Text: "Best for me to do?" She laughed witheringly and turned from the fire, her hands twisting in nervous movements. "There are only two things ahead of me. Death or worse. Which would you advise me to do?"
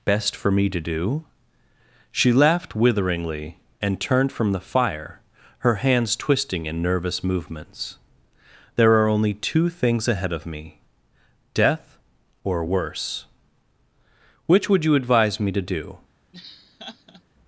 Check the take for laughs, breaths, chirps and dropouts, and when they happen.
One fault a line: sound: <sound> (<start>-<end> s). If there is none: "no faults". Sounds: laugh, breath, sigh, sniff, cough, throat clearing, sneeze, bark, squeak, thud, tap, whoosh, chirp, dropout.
sound: laugh (16.3-17.2 s)